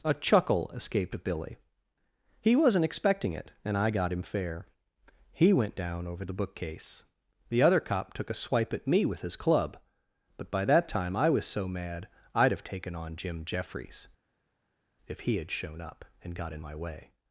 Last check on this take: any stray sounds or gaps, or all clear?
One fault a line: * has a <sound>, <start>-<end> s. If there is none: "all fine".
all fine